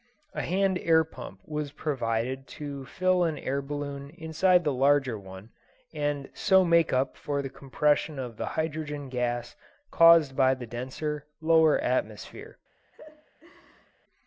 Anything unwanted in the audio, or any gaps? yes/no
yes